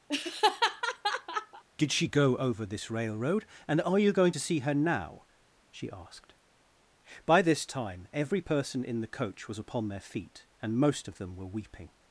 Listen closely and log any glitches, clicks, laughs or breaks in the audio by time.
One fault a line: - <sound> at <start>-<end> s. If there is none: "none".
- laugh at 0.1-1.6 s